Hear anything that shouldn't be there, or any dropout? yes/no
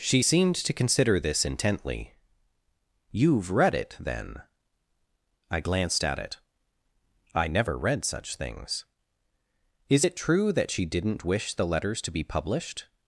no